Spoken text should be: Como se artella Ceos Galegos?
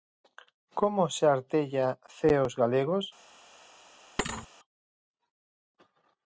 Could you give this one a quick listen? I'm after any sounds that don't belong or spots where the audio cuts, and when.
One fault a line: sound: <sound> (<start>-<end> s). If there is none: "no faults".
sound: thud (4.2-4.5 s)